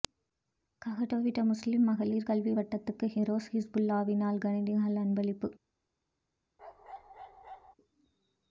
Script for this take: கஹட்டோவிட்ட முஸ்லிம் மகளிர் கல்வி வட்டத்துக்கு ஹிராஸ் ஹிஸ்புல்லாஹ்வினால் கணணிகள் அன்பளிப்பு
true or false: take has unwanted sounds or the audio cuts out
true